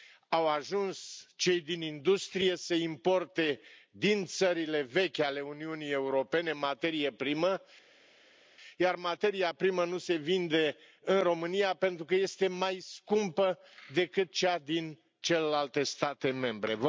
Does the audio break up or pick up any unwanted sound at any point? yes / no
no